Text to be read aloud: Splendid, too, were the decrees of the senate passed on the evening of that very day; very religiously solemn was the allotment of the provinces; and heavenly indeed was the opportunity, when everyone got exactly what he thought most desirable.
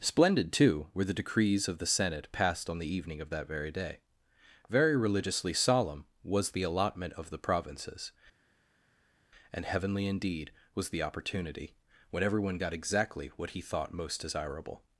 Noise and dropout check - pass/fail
pass